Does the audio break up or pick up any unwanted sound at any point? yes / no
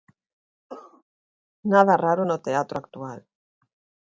yes